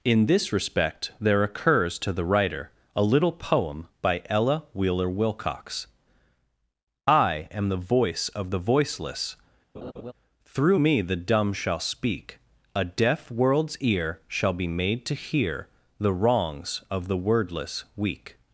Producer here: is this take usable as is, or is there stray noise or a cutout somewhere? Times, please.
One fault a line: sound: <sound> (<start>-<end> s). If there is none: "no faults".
sound: laugh (9.7-10.1 s)